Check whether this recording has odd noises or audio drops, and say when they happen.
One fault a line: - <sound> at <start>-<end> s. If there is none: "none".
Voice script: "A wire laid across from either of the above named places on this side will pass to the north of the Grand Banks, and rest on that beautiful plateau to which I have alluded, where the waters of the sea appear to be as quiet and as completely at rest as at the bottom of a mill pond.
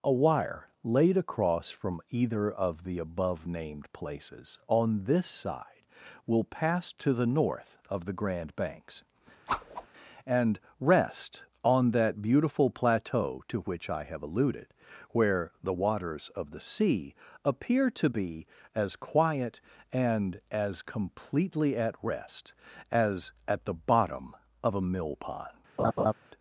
- whoosh at 9.5-9.9 s
- laugh at 25.8-26.1 s